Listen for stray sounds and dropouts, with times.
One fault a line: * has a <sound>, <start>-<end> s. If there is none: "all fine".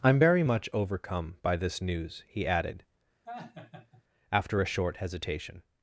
* has a laugh, 3.3-4.0 s